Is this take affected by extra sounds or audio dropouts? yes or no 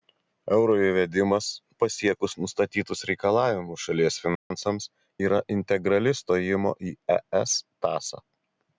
yes